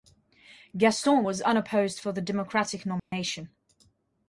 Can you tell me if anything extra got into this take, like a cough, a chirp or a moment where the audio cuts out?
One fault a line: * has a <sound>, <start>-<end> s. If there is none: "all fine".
* has a dropout, 3.0-3.1 s